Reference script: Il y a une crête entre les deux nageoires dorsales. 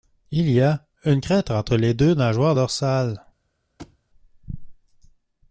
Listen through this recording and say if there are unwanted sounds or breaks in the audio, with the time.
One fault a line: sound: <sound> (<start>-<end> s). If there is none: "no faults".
sound: thud (3.8-4.0 s)